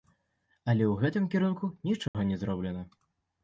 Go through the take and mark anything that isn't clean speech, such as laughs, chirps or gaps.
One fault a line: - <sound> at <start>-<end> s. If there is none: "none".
- dropout at 2.1-2.1 s